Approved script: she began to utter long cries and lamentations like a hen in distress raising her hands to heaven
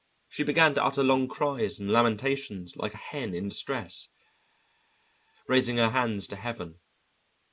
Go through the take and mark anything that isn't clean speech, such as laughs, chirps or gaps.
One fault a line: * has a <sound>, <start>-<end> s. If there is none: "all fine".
all fine